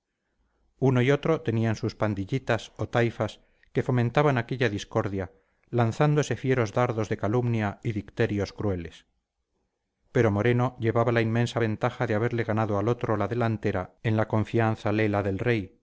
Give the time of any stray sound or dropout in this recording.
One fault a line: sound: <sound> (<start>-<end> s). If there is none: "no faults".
no faults